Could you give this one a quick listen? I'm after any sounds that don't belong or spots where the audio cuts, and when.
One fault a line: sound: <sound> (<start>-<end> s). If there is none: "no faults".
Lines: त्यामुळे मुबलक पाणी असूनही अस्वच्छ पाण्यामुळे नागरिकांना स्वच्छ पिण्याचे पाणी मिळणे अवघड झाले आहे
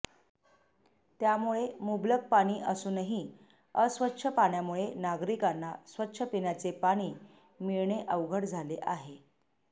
no faults